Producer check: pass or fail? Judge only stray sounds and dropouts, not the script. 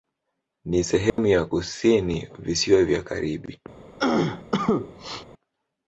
fail